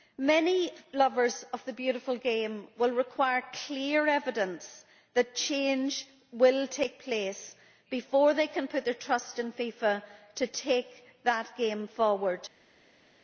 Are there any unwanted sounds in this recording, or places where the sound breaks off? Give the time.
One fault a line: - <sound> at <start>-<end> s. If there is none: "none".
none